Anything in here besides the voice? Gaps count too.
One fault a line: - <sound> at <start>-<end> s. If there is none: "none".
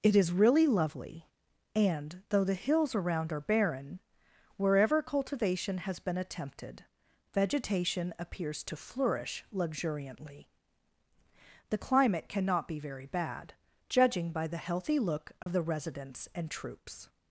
- dropout at 15.4-15.5 s